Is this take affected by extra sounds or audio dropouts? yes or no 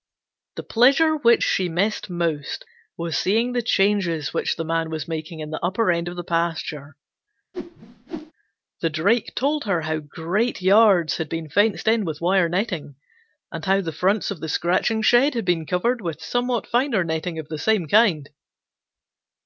yes